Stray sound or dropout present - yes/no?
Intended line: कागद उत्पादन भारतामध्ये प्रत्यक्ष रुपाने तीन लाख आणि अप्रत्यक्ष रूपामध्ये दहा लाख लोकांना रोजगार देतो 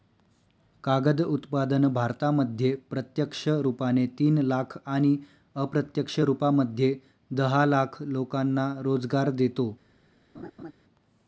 yes